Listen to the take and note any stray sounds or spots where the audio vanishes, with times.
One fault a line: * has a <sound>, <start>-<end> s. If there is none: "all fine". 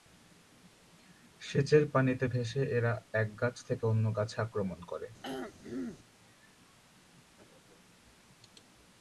* has a throat clearing, 5.2-6.0 s